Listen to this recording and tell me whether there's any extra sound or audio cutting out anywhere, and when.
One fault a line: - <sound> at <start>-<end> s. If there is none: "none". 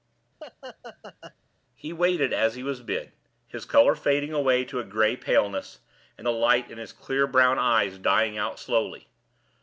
- laugh at 0.4-1.3 s